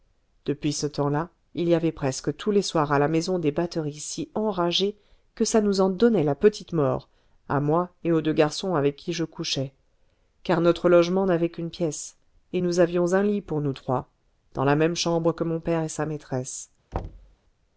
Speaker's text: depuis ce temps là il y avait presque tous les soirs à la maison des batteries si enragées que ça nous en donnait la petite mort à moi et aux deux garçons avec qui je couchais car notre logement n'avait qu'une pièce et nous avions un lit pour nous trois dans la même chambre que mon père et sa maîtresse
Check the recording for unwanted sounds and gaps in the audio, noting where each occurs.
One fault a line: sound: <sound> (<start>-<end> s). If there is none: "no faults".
sound: thud (16.9-17.4 s)